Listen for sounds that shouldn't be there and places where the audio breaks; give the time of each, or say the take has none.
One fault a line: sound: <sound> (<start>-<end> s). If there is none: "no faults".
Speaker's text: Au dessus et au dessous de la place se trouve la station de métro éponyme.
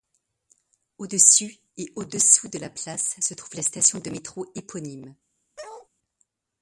sound: bark (5.6-5.9 s)